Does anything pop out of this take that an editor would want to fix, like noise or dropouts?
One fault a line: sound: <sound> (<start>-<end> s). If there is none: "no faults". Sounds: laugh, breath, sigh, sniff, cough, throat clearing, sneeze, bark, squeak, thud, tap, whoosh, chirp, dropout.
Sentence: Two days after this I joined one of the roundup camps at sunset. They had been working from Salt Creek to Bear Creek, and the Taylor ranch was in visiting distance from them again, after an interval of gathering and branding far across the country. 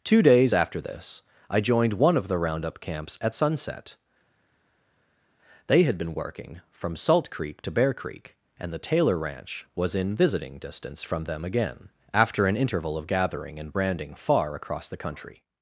no faults